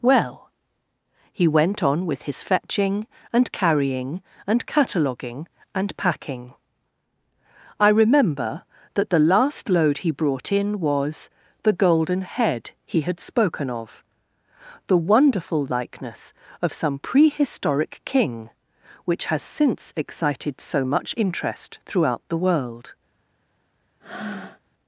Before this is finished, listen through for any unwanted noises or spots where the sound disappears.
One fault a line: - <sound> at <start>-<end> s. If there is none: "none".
- breath at 24.0-24.6 s